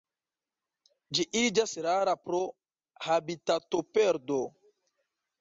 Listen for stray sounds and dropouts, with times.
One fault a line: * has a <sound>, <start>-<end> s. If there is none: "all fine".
all fine